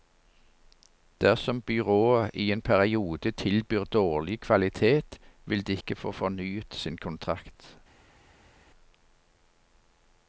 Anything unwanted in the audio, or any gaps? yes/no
no